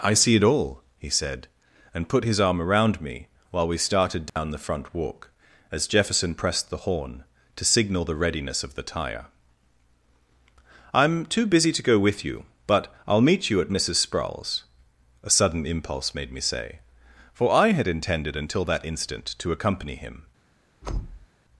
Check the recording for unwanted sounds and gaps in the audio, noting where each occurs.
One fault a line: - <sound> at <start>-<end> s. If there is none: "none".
- dropout at 4.3-4.4 s
- thud at 20.8-21.3 s